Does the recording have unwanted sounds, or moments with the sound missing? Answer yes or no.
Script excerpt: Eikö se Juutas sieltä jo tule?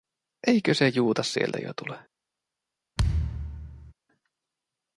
yes